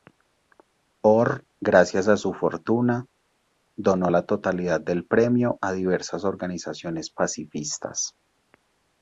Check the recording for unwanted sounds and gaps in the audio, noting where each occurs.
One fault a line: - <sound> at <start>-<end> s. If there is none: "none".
none